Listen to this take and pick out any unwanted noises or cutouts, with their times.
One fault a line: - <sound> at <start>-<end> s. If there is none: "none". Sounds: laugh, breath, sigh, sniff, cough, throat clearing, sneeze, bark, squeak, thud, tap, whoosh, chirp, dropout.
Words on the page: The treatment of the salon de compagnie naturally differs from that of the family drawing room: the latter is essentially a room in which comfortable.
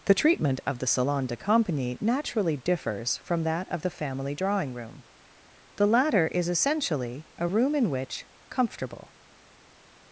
none